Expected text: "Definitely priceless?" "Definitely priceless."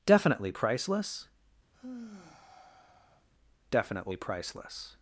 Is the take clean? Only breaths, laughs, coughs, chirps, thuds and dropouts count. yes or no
no